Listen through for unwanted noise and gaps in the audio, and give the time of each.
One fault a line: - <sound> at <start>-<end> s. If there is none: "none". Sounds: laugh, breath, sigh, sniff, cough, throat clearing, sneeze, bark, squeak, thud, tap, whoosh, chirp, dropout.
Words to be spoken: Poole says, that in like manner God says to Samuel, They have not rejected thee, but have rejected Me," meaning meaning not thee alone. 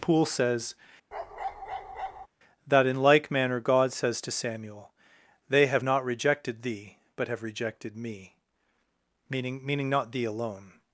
- bark at 1.1-2.3 s